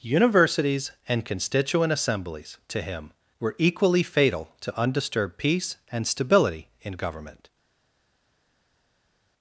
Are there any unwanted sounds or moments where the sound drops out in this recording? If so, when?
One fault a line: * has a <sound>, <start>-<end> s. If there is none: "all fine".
all fine